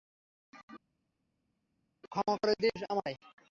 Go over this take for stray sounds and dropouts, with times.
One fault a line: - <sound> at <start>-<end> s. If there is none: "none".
none